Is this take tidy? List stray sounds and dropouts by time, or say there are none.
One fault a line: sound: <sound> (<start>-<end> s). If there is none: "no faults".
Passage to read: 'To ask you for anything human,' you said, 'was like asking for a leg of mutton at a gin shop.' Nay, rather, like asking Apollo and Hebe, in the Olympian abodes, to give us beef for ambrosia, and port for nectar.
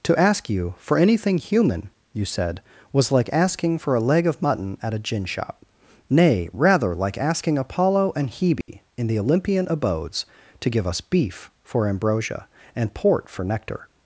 sound: dropout (8.6-8.7 s)